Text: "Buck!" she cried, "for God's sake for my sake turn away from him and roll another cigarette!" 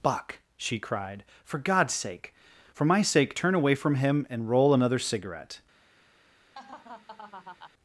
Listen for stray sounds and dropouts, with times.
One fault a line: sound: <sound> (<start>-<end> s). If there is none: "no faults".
sound: laugh (6.5-7.7 s)